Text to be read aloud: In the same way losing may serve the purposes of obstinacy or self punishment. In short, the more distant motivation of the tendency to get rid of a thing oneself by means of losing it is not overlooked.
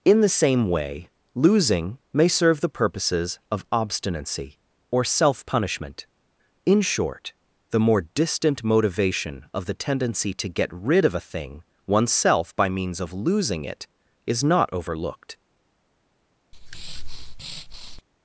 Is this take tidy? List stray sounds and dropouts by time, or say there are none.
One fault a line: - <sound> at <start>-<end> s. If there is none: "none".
- breath at 16.5-18.0 s